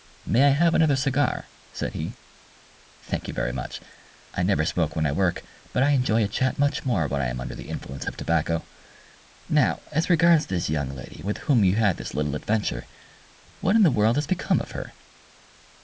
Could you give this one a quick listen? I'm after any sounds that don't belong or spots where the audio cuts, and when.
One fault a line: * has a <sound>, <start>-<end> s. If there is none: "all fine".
all fine